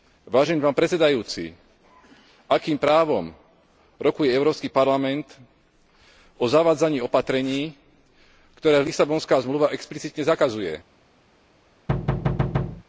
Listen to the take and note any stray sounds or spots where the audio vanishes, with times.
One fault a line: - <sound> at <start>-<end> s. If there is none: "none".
- thud at 11.9-12.8 s